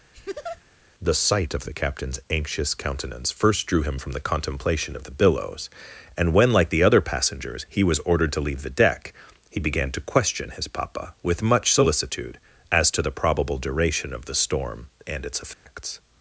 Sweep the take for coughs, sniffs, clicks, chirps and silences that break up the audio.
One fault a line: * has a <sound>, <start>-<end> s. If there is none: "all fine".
* has a laugh, 0.1-0.6 s
* has a dropout, 15.5-15.7 s